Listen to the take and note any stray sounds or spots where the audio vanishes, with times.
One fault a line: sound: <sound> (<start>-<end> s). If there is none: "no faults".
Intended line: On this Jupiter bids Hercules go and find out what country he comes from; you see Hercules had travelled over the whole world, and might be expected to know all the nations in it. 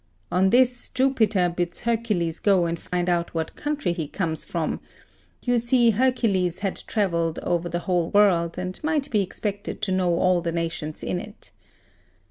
sound: dropout (2.9-2.9 s)